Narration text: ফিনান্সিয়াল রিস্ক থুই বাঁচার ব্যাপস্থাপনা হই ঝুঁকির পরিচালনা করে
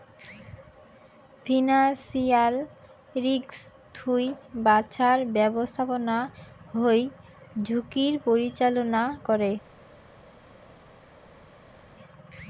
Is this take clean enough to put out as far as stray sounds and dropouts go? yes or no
yes